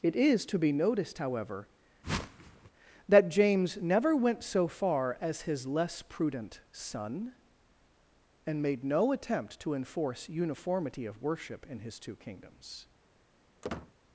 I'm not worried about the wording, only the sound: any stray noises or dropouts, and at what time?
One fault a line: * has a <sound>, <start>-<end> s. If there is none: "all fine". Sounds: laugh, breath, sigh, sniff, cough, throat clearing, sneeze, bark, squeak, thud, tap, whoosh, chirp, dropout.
* has a whoosh, 2.0-2.7 s
* has a squeak, 13.6-13.9 s